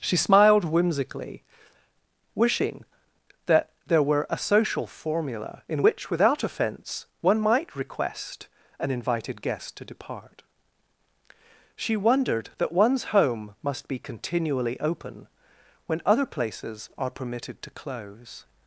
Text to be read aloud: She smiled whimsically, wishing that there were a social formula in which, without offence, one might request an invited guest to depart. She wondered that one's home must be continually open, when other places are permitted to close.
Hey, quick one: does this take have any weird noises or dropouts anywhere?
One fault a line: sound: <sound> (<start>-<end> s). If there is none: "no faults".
no faults